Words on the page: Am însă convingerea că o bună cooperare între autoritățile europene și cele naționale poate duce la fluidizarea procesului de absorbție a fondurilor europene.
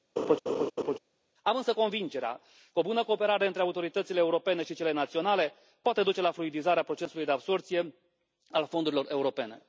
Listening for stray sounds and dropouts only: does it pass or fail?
fail